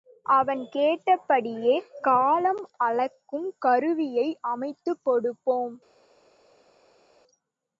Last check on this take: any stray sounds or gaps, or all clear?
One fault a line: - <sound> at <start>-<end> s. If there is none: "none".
none